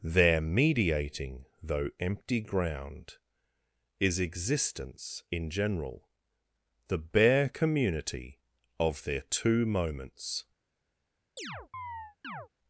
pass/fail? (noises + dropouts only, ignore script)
fail